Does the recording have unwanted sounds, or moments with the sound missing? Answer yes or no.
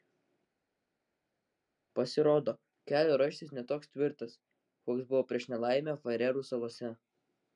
no